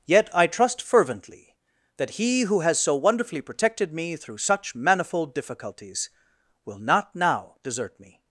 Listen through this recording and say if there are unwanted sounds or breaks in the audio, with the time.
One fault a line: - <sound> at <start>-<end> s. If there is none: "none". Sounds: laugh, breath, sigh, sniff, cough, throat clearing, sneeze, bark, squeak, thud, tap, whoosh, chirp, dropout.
none